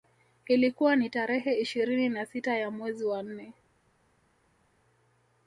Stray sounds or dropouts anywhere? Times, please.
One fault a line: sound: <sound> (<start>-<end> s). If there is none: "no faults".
no faults